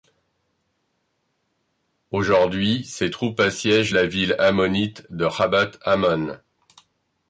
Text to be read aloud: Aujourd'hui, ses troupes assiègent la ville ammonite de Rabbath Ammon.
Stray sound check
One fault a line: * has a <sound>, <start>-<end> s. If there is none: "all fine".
all fine